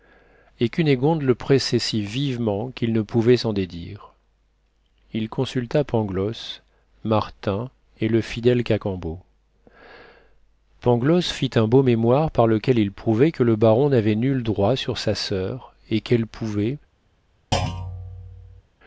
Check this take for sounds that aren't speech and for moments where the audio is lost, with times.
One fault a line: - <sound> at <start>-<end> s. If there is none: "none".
- thud at 17.5-18.6 s